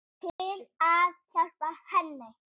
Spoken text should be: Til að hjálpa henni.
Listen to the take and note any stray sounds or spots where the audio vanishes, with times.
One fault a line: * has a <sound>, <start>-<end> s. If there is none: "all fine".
* has a dropout, 0.3-0.4 s